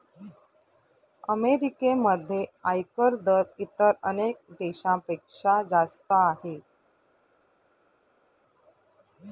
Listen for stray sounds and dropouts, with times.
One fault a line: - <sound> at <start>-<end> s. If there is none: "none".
none